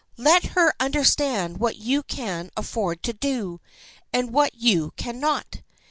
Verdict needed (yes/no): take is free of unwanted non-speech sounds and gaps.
yes